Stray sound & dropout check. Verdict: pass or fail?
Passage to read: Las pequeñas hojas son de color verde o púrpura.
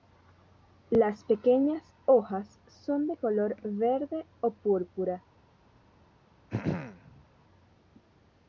fail